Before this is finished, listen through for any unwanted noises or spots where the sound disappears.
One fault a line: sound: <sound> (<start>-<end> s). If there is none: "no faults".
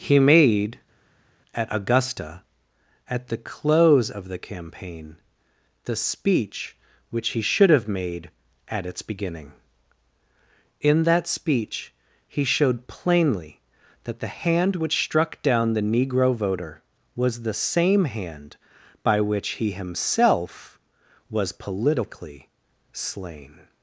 no faults